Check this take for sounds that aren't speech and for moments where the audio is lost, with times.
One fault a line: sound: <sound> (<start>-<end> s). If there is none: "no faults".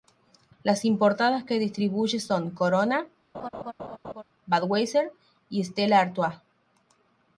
sound: laugh (3.3-4.2 s)